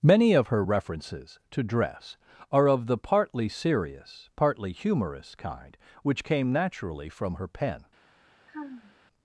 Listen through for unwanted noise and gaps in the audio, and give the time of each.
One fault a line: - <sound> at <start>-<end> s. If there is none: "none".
- sigh at 8.5-9.0 s